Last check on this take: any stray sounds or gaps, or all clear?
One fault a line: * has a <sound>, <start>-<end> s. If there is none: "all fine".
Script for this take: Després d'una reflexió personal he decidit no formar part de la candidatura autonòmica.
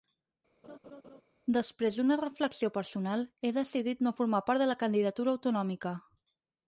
* has a laugh, 0.6-1.2 s